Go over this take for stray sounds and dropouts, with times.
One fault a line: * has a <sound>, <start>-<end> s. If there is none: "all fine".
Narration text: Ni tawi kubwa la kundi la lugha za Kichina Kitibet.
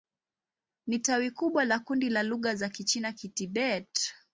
all fine